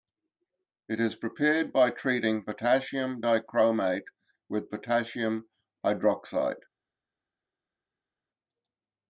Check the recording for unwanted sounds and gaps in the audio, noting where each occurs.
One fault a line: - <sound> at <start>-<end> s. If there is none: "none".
none